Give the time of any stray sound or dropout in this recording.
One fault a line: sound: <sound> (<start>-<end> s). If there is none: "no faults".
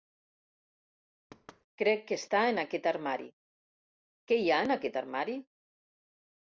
sound: thud (1.3-1.7 s)